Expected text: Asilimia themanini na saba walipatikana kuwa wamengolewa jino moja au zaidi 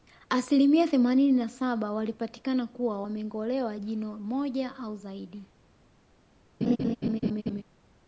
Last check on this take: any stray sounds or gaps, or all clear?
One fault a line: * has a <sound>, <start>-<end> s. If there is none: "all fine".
* has a laugh, 6.6-7.6 s